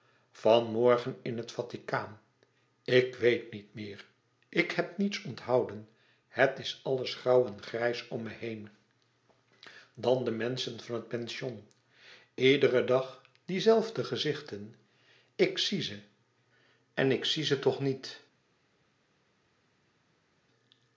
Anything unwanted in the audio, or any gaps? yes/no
no